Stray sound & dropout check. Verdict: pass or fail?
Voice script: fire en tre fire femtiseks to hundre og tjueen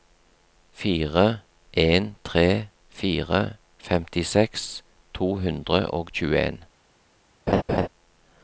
fail